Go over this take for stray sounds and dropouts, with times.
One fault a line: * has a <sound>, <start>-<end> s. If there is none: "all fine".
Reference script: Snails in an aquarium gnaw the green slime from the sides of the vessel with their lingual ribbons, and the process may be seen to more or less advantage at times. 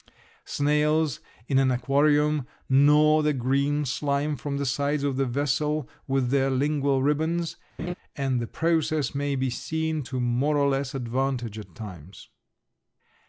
* has a laugh, 7.8-7.9 s